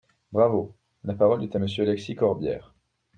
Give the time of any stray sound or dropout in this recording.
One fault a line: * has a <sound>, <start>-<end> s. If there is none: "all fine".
all fine